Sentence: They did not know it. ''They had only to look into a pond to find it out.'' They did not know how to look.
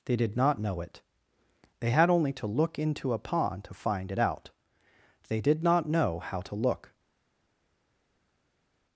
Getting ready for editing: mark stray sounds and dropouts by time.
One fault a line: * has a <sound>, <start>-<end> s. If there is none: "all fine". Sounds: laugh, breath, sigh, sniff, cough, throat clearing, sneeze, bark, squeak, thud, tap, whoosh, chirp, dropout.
all fine